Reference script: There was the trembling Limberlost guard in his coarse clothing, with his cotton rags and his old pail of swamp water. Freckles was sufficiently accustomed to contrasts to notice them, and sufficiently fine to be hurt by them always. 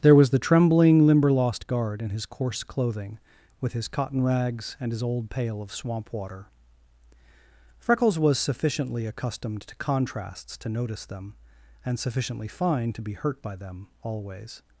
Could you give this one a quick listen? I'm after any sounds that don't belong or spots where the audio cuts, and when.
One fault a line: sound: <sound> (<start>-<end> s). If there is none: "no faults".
no faults